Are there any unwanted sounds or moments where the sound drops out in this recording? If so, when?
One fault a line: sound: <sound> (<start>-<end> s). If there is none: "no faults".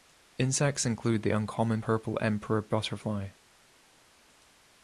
no faults